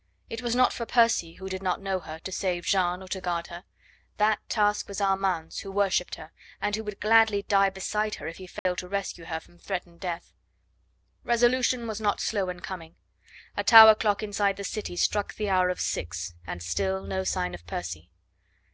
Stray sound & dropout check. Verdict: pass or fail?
fail